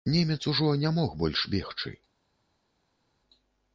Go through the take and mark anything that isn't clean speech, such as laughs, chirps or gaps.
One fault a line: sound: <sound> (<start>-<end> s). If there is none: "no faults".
no faults